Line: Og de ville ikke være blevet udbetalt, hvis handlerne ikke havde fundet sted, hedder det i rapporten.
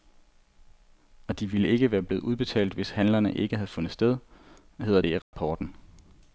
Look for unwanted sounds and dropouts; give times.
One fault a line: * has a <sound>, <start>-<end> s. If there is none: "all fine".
* has a dropout, 5.2-5.3 s